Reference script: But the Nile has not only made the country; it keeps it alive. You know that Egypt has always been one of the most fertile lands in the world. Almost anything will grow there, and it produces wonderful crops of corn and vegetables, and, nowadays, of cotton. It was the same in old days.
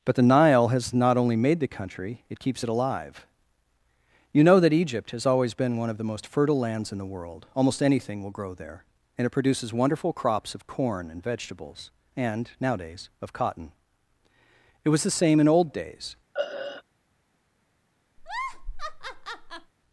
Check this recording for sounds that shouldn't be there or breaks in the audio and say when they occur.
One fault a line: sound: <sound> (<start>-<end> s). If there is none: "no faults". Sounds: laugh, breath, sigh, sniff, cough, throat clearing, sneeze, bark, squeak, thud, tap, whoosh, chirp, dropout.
sound: throat clearing (16.3-16.8 s)
sound: laugh (18.2-19.7 s)